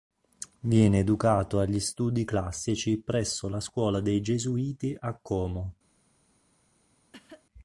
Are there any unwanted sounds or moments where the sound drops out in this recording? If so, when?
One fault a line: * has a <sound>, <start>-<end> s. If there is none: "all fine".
* has a cough, 7.1-7.5 s